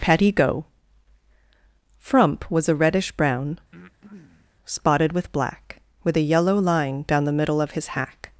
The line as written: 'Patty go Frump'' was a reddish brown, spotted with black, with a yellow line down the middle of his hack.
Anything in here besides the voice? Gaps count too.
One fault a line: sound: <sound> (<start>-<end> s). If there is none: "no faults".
sound: breath (3.7-4.6 s)